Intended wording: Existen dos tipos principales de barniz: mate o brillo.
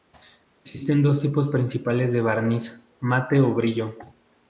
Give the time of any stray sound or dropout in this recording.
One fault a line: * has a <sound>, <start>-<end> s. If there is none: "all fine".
all fine